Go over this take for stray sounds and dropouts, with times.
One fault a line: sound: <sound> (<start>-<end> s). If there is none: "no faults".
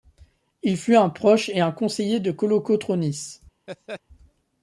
sound: laugh (3.7-4.0 s)